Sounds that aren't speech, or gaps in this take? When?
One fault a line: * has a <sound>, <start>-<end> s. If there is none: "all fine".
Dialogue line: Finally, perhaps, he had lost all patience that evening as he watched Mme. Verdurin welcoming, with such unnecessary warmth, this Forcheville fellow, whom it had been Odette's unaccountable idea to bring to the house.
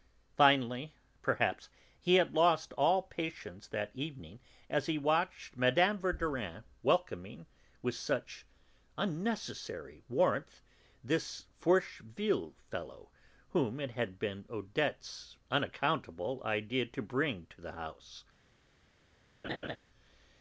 * has a laugh, 19.4-19.8 s